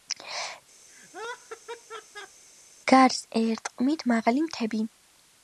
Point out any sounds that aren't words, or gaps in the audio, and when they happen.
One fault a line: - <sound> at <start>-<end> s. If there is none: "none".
- laugh at 0.9-2.4 s